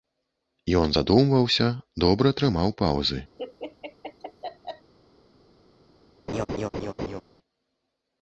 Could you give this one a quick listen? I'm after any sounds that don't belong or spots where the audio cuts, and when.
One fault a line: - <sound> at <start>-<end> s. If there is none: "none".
- laugh at 3.4-4.9 s
- laugh at 6.3-7.2 s